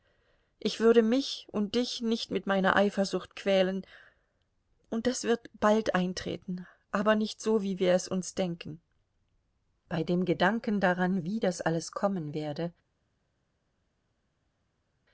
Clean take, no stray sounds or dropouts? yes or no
yes